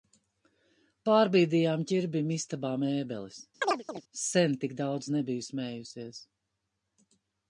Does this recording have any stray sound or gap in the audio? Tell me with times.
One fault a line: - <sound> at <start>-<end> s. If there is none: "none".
- chirp at 3.6-4.0 s